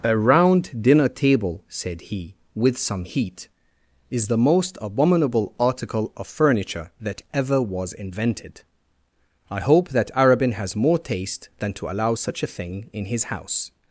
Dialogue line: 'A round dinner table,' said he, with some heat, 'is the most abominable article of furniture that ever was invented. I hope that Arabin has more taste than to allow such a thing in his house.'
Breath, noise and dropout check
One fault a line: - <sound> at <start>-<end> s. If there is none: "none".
none